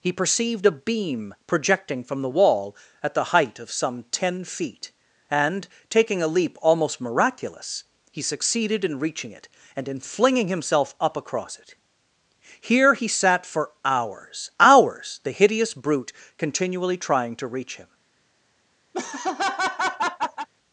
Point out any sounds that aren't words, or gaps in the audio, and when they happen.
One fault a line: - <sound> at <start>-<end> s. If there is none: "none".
- laugh at 18.9-20.5 s